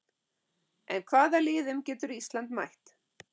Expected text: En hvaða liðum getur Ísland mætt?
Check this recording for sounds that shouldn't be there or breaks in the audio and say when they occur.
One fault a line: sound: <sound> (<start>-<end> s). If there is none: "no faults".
no faults